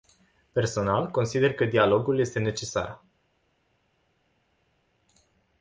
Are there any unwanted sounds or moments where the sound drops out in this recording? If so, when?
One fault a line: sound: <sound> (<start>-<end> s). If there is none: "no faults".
no faults